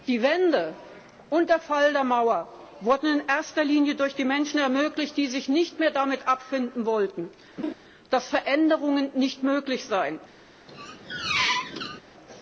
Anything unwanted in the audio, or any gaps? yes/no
yes